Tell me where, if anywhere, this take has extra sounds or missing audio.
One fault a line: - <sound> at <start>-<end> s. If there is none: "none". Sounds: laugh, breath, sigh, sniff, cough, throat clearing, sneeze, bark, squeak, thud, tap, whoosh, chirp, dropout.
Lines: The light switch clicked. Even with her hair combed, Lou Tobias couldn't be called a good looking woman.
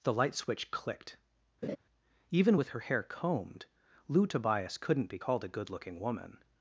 - laugh at 1.6-1.8 s